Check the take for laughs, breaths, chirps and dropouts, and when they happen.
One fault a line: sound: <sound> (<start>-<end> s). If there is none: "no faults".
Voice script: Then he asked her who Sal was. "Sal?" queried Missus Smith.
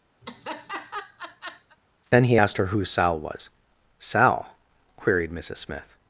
sound: laugh (0.2-1.8 s)